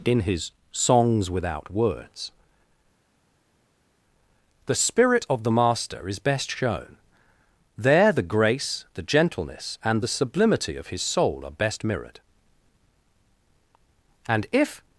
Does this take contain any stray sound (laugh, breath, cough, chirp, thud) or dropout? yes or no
no